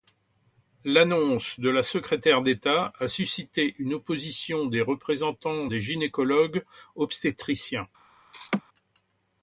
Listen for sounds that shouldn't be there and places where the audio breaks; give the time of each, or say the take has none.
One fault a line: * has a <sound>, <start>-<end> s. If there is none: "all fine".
* has a laugh, 8.3-8.6 s